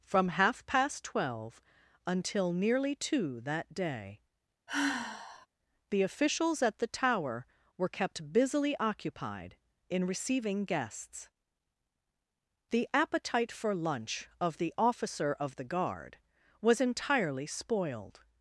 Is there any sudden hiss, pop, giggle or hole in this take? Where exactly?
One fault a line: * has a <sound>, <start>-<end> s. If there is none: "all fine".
* has a sigh, 4.7-5.5 s